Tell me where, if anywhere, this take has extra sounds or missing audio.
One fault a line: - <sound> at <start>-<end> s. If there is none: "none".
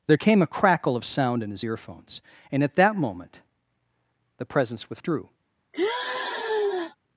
- sigh at 5.7-7.0 s